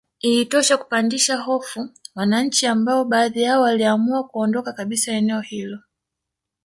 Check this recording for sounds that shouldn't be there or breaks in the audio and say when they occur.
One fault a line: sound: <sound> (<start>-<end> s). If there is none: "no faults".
no faults